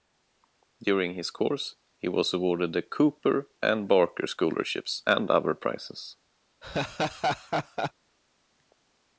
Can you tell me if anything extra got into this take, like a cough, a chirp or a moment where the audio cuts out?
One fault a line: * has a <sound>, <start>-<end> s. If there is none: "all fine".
* has a laugh, 6.6-7.9 s